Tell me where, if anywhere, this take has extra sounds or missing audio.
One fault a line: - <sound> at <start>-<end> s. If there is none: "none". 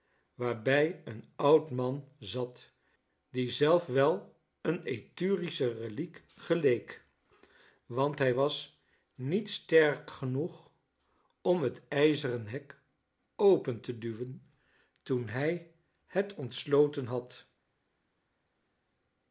none